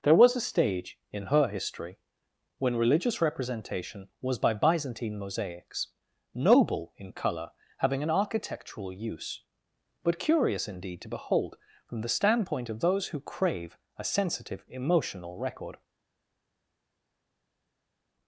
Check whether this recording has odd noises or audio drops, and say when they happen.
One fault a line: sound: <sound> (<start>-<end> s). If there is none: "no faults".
no faults